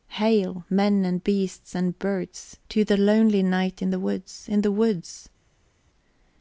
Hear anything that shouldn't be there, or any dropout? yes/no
no